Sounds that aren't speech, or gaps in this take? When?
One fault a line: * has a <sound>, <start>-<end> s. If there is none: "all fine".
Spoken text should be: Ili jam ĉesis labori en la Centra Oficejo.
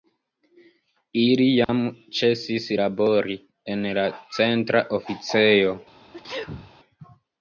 * has a dropout, 1.6-1.7 s
* has a sneeze, 6.1-6.7 s